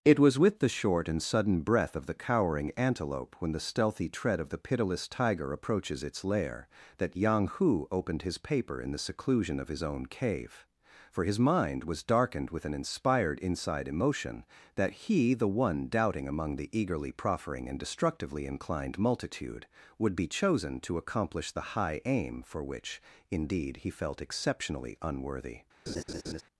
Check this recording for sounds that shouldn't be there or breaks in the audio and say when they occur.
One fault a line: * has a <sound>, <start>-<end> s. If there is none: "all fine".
* has a laugh, 25.9-26.4 s